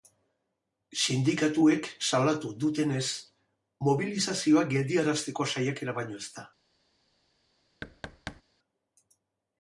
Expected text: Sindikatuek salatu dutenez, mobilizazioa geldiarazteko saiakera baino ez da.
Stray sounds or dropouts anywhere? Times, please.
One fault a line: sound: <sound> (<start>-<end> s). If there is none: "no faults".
sound: thud (7.8-8.4 s)